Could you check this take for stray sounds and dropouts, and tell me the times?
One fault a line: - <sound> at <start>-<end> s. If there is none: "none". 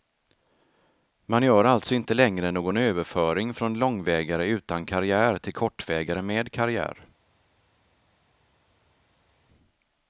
none